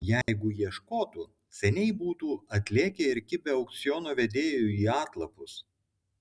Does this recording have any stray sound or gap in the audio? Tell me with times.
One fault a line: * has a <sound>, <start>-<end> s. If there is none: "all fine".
* has a dropout, 0.2-0.3 s